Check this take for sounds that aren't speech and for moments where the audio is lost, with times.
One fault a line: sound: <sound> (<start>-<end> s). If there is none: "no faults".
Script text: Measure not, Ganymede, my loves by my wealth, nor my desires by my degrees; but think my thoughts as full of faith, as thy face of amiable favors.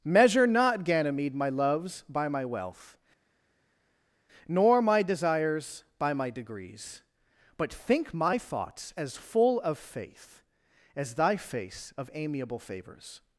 no faults